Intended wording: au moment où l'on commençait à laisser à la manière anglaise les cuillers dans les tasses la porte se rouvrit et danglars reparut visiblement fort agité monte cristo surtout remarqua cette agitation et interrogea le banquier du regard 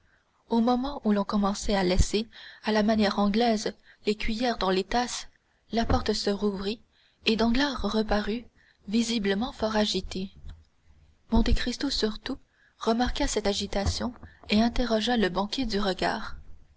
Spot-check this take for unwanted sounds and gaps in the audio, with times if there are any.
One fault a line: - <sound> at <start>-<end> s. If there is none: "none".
none